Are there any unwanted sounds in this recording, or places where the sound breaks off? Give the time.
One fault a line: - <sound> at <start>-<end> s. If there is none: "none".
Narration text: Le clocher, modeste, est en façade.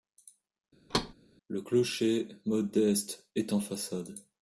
- thud at 0.9-1.1 s